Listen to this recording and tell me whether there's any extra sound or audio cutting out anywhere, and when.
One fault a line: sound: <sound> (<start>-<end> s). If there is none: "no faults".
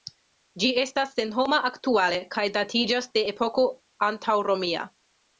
no faults